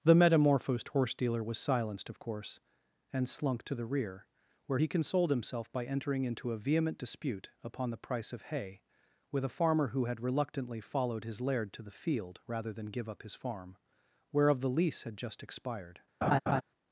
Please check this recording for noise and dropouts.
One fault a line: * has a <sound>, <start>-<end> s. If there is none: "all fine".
* has a laugh, 16.2-16.6 s